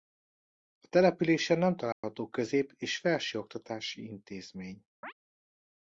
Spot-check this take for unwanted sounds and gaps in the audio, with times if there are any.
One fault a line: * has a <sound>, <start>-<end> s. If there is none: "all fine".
* has a dropout, 1.9-2.0 s
* has a chirp, 5.0-5.1 s